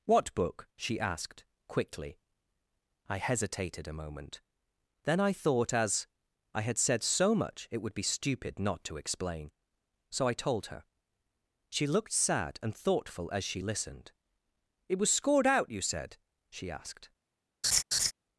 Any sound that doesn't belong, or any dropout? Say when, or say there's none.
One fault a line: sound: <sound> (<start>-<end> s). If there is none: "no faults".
sound: laugh (17.6-18.1 s)